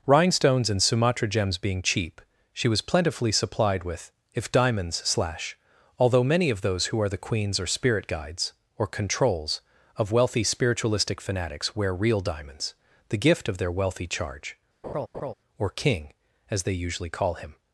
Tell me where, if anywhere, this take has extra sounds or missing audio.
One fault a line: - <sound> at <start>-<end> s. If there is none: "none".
- laugh at 14.8-15.3 s